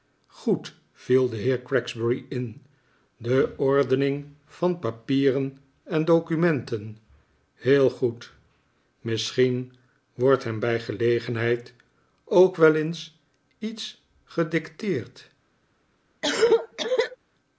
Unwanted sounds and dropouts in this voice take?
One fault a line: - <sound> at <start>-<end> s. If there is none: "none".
- cough at 16.2-17.2 s